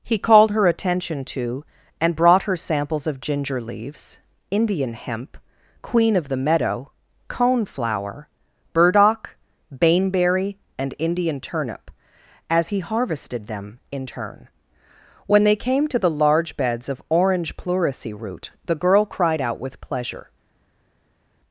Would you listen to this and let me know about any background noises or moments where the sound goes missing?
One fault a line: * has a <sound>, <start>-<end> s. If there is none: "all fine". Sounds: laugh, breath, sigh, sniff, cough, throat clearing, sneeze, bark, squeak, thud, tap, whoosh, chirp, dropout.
all fine